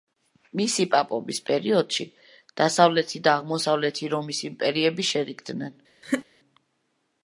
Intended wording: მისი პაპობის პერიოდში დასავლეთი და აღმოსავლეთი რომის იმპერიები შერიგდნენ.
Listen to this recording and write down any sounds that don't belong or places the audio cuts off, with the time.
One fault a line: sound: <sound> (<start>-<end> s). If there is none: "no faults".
sound: laugh (6.0-6.3 s)